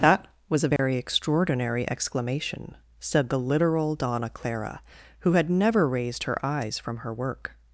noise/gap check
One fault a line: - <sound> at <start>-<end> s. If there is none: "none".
- dropout at 0.8-0.8 s